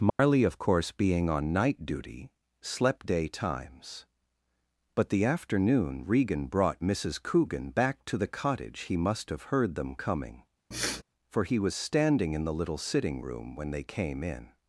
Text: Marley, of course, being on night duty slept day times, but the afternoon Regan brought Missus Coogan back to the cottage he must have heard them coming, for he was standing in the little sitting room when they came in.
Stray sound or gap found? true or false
true